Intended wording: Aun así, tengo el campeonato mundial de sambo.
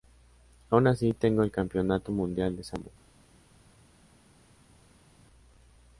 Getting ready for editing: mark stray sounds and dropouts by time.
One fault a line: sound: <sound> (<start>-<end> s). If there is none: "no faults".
no faults